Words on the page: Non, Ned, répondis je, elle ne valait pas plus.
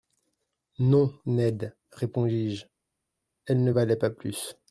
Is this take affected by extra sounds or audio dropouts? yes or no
no